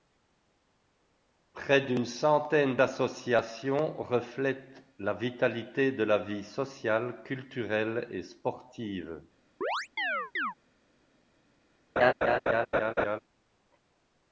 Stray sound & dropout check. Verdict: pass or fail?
fail